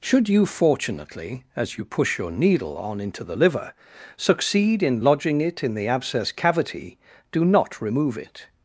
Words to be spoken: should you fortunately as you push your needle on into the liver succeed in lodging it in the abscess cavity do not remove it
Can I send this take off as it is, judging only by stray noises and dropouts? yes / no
yes